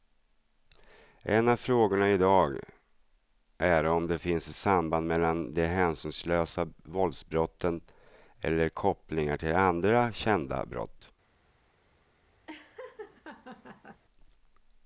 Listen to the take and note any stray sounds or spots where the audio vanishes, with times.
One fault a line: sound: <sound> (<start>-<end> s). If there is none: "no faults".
sound: laugh (12.5-14.0 s)